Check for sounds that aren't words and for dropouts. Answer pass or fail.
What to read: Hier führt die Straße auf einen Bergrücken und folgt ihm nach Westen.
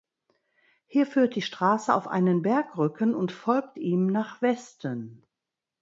pass